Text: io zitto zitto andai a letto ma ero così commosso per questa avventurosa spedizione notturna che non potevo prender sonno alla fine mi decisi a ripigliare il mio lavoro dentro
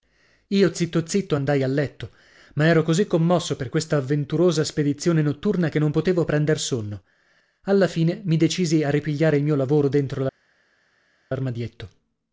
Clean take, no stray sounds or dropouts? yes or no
yes